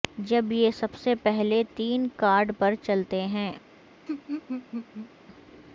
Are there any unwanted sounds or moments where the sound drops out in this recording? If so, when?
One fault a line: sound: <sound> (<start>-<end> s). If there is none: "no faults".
sound: laugh (4.1-5.1 s)